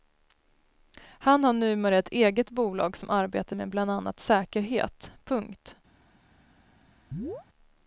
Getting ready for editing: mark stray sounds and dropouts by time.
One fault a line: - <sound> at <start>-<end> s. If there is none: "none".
- chirp at 7.1-7.5 s